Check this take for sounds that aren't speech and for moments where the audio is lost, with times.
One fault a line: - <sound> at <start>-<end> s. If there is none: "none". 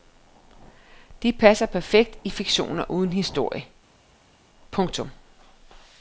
none